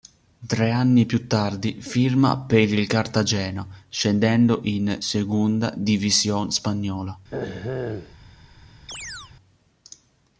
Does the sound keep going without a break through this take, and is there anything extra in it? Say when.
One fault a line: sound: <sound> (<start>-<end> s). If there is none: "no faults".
sound: throat clearing (7.3-8.1 s)
sound: chirp (8.9-9.3 s)